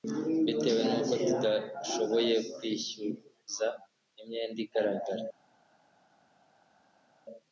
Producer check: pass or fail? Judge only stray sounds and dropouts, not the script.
pass